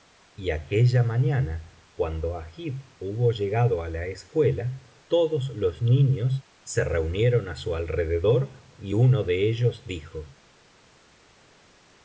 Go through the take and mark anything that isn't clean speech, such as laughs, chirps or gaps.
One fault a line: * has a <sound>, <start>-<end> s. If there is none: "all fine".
all fine